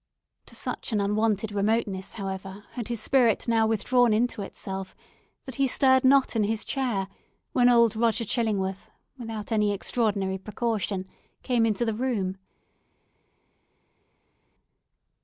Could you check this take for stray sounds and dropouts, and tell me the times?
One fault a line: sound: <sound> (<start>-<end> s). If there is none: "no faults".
no faults